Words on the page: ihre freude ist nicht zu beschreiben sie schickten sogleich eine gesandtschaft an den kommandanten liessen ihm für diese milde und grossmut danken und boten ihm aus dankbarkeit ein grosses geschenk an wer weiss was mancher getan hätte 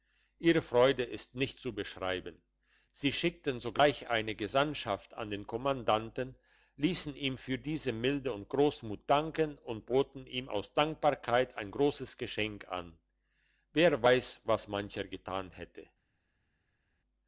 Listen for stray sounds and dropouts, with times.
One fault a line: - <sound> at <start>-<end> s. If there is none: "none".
none